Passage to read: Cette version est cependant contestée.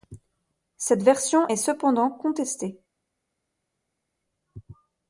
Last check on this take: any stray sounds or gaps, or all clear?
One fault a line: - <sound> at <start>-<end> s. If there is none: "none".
none